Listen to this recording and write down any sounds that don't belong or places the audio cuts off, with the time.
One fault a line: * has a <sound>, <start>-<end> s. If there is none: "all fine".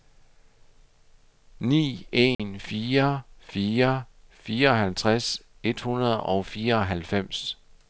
* has a dropout, 2.3-2.4 s